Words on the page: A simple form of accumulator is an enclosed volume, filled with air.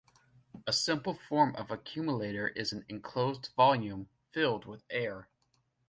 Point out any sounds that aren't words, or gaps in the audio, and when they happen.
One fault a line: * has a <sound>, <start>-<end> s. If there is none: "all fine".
all fine